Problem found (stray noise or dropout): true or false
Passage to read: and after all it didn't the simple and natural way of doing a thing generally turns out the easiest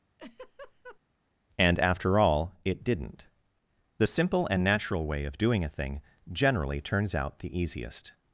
true